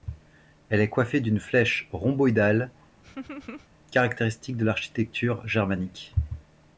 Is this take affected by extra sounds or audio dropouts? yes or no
yes